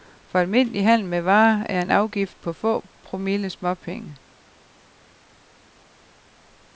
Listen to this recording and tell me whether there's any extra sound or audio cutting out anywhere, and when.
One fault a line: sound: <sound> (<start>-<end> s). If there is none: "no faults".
no faults